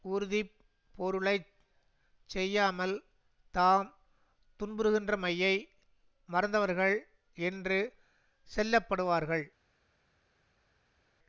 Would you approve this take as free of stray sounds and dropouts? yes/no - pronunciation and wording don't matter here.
yes